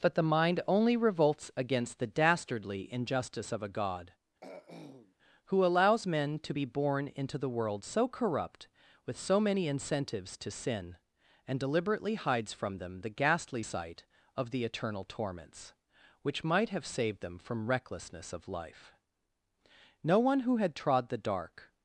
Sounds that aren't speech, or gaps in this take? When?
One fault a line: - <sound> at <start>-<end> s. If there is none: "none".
- throat clearing at 4.4-5.2 s